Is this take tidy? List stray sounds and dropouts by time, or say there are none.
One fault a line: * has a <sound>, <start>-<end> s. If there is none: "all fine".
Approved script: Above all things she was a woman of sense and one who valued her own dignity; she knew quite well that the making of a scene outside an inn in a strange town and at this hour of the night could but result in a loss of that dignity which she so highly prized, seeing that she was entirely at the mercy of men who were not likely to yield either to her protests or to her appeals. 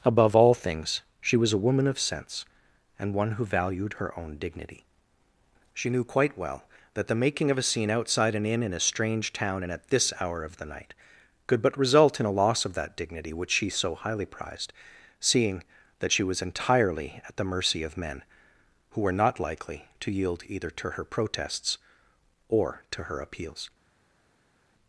all fine